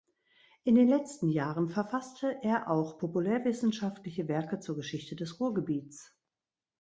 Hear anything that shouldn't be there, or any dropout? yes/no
no